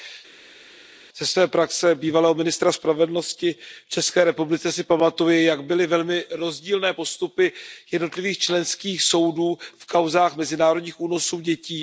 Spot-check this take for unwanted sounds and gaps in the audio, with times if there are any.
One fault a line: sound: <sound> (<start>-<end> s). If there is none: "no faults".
no faults